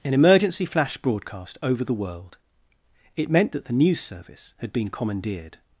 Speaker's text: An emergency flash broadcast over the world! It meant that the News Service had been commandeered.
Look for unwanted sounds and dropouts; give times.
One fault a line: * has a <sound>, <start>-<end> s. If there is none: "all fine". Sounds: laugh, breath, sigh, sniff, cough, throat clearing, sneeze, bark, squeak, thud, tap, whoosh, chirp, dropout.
all fine